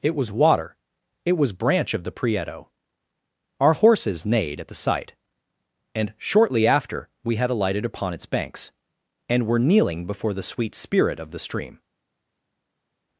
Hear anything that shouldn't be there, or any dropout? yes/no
no